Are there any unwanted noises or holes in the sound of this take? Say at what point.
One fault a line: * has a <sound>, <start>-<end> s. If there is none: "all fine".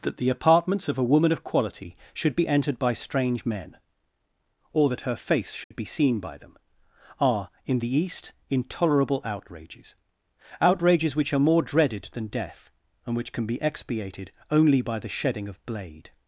* has a dropout, 5.6-5.7 s